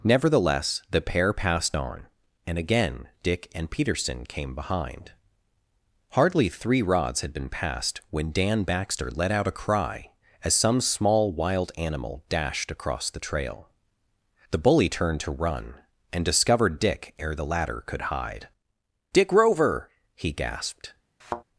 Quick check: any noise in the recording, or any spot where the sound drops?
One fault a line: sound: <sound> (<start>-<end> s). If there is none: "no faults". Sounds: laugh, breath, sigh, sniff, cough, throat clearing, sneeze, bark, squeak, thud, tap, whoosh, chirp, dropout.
sound: thud (21.2-21.4 s)